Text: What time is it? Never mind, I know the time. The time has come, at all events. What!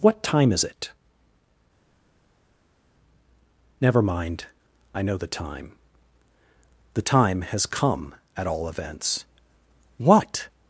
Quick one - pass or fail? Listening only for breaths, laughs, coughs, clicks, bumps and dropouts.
pass